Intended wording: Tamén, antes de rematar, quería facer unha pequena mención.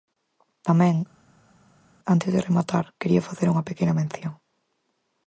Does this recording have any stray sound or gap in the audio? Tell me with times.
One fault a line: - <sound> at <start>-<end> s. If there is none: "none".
none